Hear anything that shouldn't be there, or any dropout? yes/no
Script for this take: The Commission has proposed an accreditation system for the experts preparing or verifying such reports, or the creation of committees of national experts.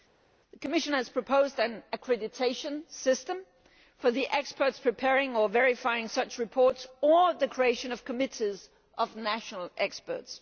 no